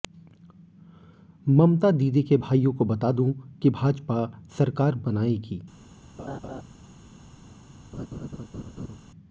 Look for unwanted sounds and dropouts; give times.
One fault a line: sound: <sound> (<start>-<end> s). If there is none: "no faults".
sound: laugh (6.2-6.6 s)
sound: laugh (7.9-9.0 s)